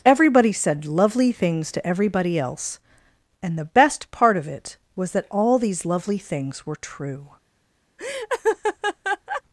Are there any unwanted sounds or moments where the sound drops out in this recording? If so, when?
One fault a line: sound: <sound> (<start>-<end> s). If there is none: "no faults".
sound: laugh (8.0-9.4 s)